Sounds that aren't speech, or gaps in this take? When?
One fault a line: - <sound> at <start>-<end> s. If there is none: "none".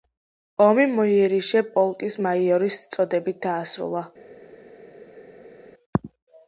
none